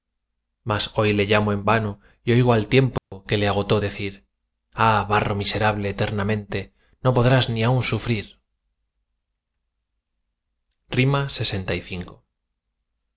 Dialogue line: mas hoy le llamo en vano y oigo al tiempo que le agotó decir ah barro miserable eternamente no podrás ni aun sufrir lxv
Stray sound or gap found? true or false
true